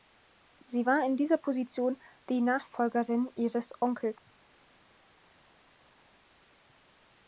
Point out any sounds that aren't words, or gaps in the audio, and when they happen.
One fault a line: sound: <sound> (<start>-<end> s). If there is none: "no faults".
no faults